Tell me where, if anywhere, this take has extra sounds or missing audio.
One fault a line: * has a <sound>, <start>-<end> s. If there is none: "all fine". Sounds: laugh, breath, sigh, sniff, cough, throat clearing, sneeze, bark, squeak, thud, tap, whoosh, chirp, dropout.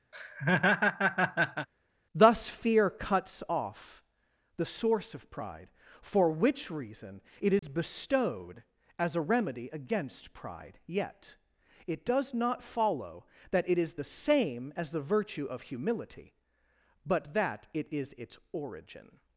* has a laugh, 0.1-1.7 s
* has a dropout, 7.6-7.6 s